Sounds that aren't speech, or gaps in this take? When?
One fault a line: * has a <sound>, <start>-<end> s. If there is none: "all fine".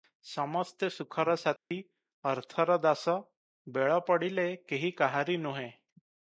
* has a dropout, 1.6-1.7 s